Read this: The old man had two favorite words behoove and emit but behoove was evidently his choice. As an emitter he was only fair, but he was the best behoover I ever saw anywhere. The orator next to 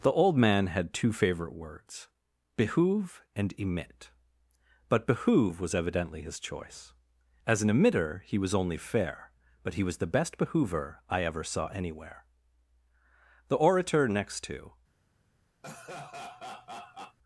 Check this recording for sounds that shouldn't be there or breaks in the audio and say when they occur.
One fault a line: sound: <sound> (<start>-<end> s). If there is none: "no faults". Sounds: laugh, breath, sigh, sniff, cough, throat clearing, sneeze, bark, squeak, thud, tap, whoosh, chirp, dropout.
sound: laugh (15.6-17.2 s)